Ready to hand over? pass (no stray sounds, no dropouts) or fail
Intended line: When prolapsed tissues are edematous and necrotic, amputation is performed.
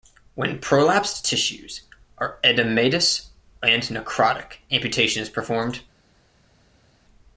pass